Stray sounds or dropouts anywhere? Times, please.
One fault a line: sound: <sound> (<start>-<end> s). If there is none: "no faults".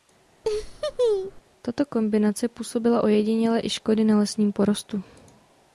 sound: laugh (0.4-1.4 s)